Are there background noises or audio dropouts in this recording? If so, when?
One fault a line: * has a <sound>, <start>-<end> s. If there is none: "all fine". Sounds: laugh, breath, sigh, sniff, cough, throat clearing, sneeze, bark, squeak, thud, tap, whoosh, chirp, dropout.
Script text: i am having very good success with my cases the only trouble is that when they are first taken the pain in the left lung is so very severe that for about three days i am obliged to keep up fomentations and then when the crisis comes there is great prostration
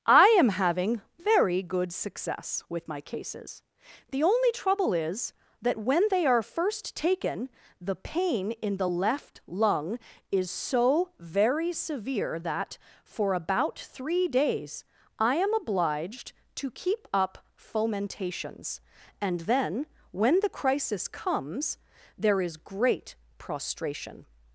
all fine